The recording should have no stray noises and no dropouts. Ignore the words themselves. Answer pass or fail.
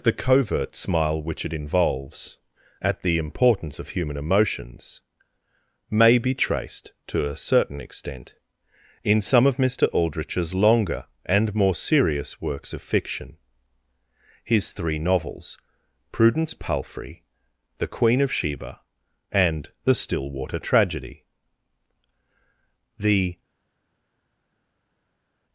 pass